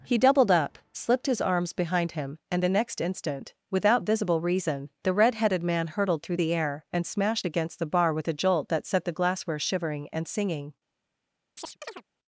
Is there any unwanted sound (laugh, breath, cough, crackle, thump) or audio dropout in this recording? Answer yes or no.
yes